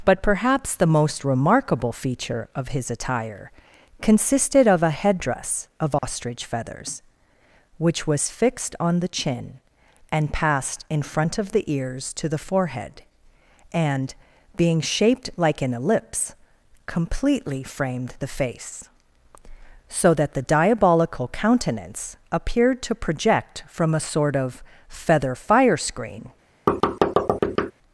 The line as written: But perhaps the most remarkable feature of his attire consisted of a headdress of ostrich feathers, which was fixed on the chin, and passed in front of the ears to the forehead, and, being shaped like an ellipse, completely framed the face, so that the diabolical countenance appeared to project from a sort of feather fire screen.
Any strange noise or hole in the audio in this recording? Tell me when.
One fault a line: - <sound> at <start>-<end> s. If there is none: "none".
- dropout at 6.0-6.0 s
- thud at 26.7-27.7 s